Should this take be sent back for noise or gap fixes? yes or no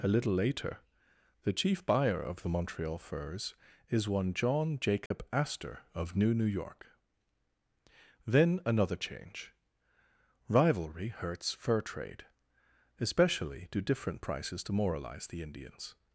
yes